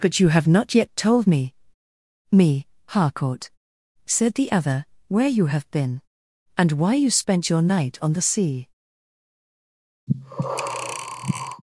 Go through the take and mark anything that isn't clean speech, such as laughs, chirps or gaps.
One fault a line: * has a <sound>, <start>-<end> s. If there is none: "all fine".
* has a breath, 10.1-11.6 s